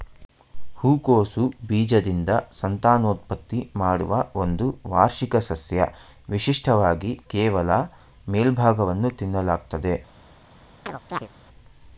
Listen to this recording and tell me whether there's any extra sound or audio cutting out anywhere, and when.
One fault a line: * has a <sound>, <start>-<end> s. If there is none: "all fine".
* has a chirp, 10.9-11.3 s